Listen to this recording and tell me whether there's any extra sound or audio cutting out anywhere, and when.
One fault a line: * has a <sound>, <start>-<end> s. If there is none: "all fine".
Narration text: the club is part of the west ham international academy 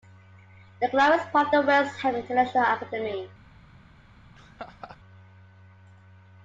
* has a laugh, 4.3-5.0 s